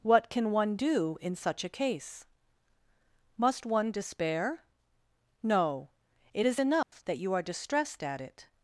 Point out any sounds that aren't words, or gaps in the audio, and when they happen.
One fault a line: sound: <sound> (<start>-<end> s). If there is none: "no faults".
sound: dropout (6.8-6.9 s)